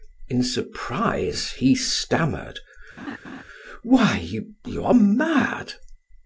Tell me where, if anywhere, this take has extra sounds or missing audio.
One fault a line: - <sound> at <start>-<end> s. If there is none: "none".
- laugh at 3.0-3.4 s